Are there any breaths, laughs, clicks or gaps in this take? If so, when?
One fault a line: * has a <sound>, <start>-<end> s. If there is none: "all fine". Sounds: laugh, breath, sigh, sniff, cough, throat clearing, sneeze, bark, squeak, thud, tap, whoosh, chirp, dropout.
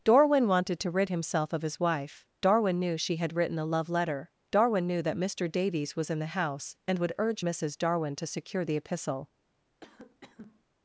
* has a cough, 9.8-10.6 s